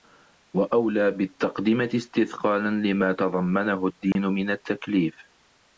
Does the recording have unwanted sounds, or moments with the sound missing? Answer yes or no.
yes